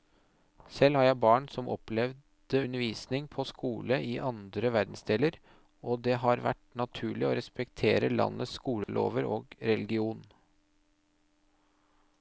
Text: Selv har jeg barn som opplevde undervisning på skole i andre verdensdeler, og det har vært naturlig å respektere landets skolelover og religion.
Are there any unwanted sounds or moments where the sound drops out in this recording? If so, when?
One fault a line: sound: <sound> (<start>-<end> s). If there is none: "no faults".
sound: dropout (8.8-8.9 s)